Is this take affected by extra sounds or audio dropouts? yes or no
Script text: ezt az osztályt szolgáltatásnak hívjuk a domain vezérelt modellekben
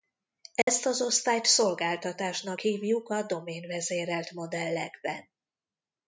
yes